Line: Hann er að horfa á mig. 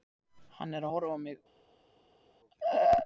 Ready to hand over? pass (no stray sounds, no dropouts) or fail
pass